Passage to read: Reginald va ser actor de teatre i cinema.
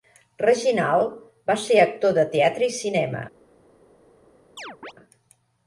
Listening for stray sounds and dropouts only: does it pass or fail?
fail